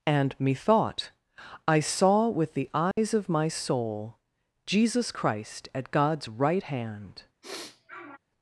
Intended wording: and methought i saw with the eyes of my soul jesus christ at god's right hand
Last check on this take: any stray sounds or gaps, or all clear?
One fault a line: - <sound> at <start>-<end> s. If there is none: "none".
- dropout at 2.9-3.0 s
- sniff at 7.4-8.2 s